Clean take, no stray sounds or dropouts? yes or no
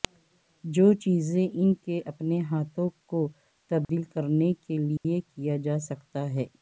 no